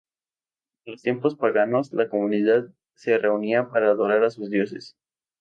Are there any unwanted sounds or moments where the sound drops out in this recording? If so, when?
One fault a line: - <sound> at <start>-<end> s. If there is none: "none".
none